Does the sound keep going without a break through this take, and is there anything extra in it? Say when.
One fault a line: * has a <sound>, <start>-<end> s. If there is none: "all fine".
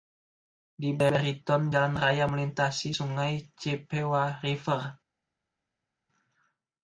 all fine